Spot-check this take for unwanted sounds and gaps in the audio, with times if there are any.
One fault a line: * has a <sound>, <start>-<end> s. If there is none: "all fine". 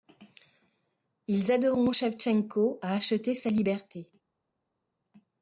all fine